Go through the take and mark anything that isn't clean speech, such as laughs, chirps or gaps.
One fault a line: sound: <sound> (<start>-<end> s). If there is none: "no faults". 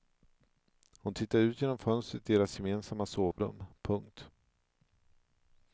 sound: dropout (3.3-3.4 s)